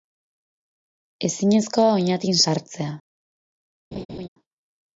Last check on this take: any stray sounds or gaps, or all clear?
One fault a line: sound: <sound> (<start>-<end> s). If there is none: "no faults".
sound: laugh (3.9-4.3 s)